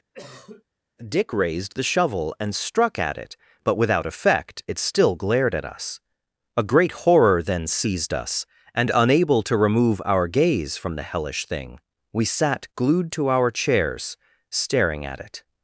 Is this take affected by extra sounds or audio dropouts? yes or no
yes